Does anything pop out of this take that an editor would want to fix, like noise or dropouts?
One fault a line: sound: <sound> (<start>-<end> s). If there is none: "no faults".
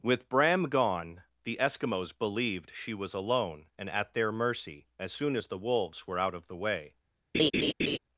sound: laugh (7.3-8.0 s)